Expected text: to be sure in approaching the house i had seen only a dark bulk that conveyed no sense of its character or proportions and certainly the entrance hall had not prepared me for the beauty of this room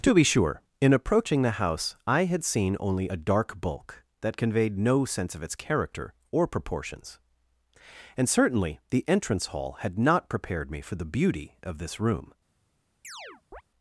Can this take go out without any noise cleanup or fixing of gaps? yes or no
no